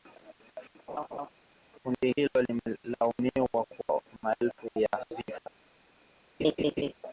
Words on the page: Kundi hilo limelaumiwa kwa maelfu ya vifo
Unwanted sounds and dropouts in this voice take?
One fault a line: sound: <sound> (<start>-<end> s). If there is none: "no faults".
sound: laugh (0.9-1.3 s)
sound: laugh (6.4-6.9 s)